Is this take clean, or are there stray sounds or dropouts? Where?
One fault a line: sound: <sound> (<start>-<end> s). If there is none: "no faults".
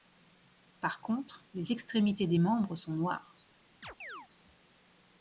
sound: chirp (3.8-4.3 s)